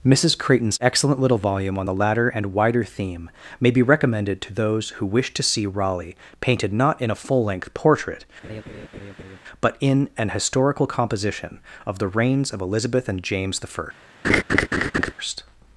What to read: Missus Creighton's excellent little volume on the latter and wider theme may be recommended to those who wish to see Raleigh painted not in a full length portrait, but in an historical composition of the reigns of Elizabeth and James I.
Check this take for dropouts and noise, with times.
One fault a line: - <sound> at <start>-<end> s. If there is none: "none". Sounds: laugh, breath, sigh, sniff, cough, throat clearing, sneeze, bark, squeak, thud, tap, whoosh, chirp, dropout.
- laugh at 8.4-9.4 s
- laugh at 14.2-15.1 s